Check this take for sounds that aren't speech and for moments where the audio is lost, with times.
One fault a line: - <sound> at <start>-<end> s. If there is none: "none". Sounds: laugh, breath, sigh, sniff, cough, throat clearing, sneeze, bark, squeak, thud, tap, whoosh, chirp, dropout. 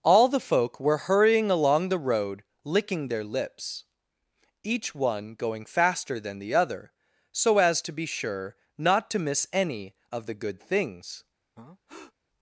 - breath at 11.6-12.1 s